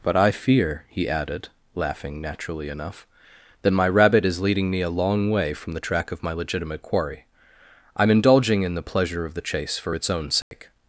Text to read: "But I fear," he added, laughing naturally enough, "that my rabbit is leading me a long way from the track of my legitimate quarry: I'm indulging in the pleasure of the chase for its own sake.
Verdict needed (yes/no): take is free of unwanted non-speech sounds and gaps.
no